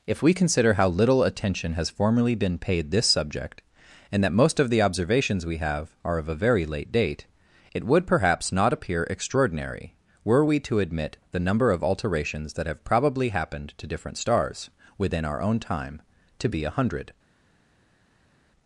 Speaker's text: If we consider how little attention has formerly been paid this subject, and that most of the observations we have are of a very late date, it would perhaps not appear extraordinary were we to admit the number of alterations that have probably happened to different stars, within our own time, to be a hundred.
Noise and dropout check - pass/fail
pass